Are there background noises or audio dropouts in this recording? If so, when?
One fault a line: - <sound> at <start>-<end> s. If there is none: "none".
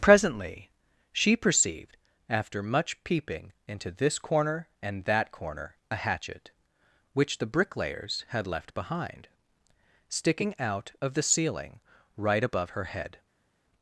none